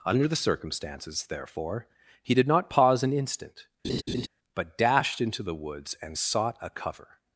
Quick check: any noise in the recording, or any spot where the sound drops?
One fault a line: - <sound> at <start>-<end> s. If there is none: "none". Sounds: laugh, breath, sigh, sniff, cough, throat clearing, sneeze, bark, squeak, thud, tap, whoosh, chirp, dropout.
- laugh at 3.8-4.3 s